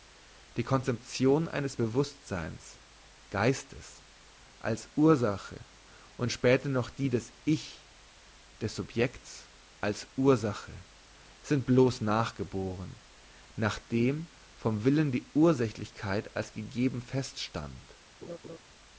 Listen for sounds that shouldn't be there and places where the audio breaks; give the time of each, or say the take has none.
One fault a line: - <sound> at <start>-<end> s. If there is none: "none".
- laugh at 18.2-18.6 s